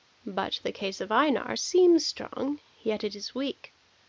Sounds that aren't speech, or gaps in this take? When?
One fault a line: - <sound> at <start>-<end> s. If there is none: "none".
none